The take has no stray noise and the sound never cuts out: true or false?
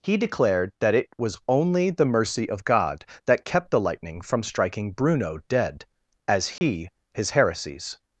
false